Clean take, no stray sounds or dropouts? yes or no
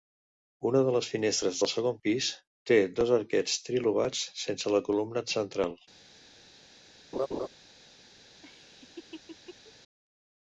no